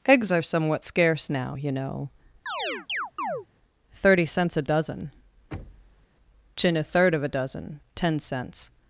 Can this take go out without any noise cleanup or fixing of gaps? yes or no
no